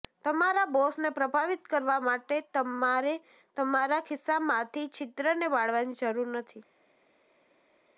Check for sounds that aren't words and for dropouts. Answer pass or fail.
pass